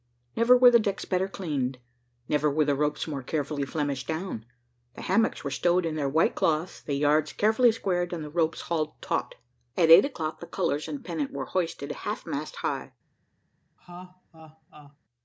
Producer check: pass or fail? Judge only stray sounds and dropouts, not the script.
fail